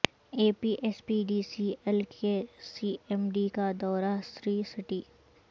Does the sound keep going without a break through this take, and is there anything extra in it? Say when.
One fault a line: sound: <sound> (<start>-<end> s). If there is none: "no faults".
no faults